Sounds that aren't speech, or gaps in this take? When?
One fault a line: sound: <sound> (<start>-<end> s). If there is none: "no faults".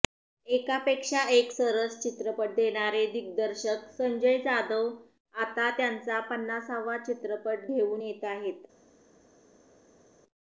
no faults